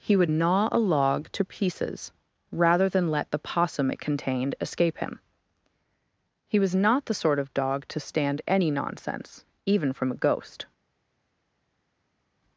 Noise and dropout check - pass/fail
pass